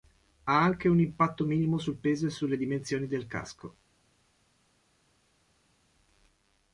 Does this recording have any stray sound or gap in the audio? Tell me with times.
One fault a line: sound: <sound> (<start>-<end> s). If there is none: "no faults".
no faults